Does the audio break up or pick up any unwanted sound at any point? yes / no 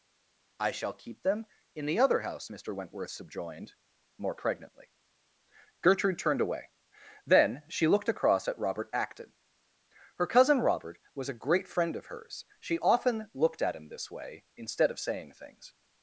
no